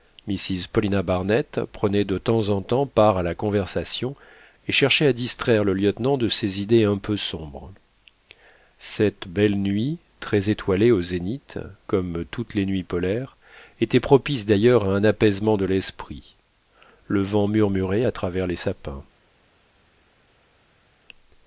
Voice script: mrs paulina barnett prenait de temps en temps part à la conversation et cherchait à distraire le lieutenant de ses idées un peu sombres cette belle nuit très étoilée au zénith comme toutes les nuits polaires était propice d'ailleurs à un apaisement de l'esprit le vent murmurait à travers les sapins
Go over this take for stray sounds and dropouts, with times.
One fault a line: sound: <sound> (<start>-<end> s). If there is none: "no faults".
no faults